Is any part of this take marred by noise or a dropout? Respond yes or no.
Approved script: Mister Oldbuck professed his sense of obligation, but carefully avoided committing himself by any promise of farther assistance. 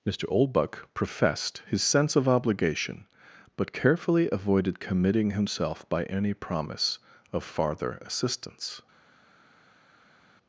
no